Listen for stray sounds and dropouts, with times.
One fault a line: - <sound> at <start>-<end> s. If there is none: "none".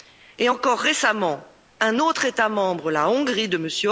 none